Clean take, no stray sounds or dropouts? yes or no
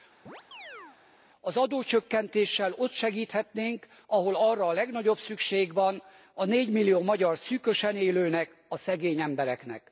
no